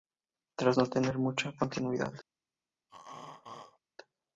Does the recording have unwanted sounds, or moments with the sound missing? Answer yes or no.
yes